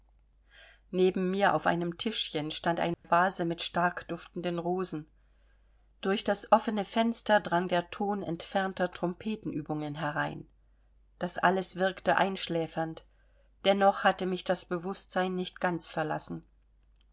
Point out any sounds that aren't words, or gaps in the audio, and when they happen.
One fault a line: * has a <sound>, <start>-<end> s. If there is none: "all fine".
* has a dropout, 2.9-3.0 s